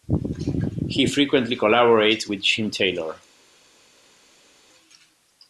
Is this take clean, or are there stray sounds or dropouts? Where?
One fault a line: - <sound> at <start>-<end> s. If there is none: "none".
none